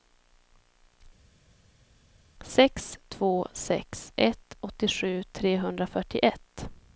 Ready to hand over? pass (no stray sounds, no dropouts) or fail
pass